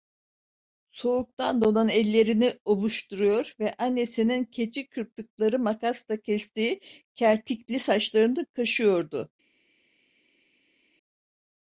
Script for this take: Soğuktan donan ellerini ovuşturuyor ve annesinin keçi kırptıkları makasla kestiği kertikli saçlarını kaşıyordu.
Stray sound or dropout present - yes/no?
no